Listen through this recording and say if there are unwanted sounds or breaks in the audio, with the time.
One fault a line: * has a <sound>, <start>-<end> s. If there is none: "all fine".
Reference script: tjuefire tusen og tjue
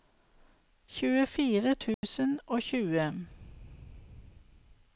* has a dropout, 1.9-2.0 s